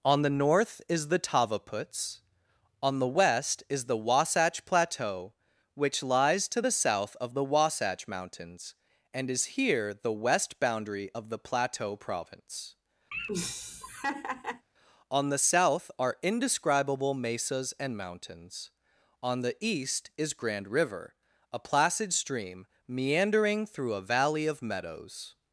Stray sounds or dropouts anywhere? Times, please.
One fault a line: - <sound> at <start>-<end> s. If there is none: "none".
- laugh at 13.1-14.7 s